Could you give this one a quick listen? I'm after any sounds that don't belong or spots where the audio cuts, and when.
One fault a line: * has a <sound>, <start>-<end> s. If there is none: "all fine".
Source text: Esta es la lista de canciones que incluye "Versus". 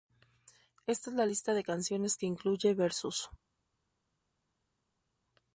all fine